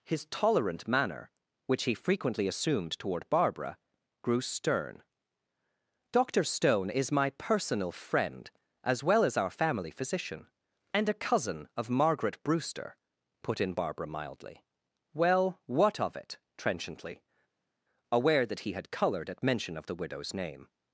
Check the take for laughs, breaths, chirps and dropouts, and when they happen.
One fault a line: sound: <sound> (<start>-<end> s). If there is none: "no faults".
no faults